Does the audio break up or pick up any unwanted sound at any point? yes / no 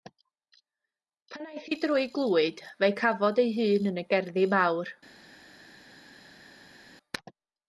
no